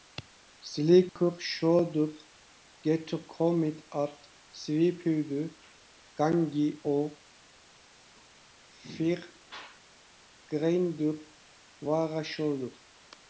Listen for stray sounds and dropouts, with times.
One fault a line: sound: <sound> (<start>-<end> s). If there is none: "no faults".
sound: dropout (1.1-1.2 s)